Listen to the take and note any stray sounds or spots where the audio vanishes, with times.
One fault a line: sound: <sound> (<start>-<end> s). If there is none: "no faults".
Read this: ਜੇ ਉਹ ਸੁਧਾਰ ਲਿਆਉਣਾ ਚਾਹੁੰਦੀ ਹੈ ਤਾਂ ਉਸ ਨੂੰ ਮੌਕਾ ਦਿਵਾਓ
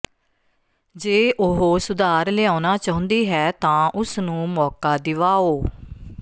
no faults